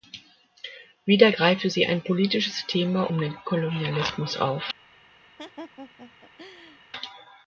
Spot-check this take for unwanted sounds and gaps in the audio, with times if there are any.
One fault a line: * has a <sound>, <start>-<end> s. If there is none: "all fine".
* has a laugh, 5.4-6.8 s